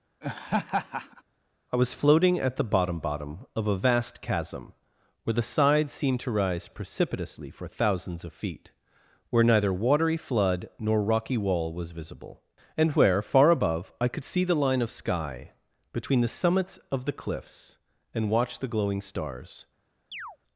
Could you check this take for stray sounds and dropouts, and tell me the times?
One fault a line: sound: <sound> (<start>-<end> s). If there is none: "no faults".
sound: laugh (0.2-1.2 s)
sound: chirp (20.1-20.4 s)